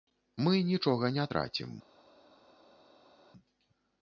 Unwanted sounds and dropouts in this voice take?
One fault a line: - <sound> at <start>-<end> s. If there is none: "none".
none